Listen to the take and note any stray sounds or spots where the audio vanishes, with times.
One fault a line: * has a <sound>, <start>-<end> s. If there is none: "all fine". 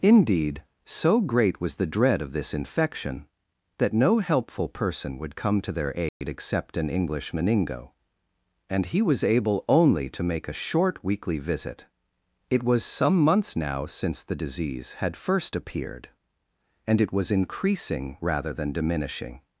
* has a dropout, 6.1-6.2 s